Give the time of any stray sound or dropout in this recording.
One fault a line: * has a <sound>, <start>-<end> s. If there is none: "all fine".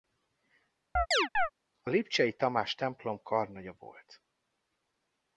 * has a chirp, 1.0-1.5 s